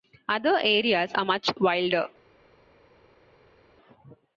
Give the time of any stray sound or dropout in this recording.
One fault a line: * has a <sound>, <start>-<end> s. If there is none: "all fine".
all fine